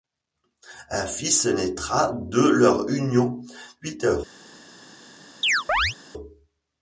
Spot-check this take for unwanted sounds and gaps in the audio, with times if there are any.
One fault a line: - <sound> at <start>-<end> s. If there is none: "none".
- chirp at 5.4-6.0 s